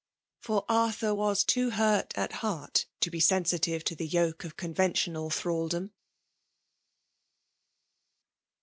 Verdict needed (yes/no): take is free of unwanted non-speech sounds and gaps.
yes